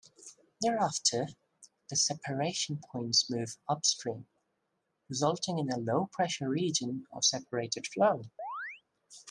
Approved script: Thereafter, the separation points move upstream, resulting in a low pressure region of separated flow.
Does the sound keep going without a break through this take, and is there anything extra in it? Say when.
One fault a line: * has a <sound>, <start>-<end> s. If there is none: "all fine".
* has a chirp, 8.4-8.8 s